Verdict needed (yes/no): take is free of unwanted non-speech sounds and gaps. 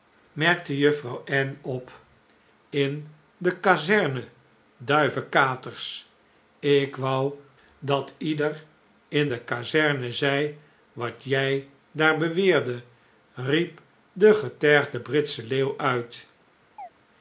no